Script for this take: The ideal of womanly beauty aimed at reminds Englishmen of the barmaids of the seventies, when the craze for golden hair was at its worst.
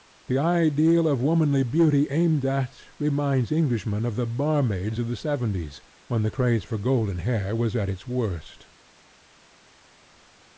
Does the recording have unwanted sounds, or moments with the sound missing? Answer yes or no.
no